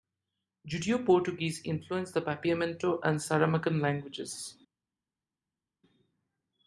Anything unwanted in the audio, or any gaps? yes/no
no